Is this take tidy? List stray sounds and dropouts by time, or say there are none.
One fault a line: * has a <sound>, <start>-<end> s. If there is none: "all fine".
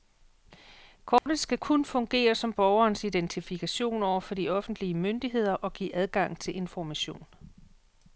* has a dropout, 1.2-1.3 s